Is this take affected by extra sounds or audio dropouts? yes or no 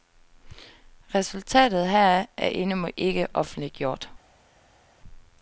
no